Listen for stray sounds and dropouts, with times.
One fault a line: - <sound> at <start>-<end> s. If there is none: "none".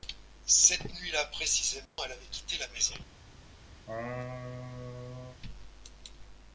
- dropout at 1.9-2.0 s
- laugh at 3.9-5.4 s